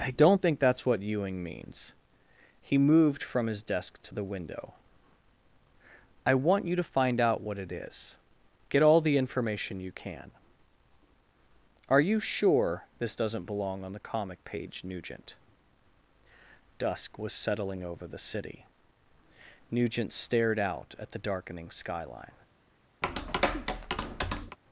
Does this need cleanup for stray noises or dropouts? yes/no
yes